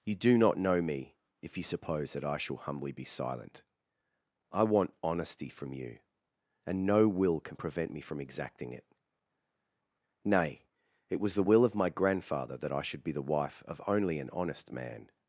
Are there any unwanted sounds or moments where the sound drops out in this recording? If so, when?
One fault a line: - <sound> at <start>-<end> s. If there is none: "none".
none